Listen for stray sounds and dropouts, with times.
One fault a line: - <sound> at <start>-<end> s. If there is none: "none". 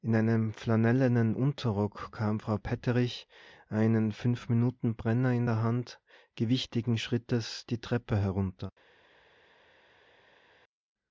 none